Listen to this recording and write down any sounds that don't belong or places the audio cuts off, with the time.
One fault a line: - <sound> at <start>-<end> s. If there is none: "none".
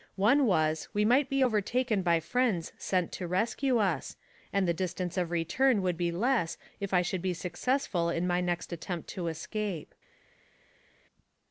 none